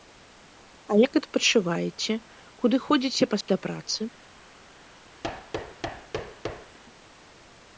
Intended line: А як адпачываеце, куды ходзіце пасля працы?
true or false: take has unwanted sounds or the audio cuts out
true